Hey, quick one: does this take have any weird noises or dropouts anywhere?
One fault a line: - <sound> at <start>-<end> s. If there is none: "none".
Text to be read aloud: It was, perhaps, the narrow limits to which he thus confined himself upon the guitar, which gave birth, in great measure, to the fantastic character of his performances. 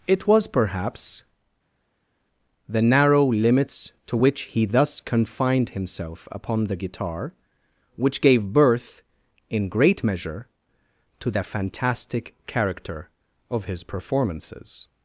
none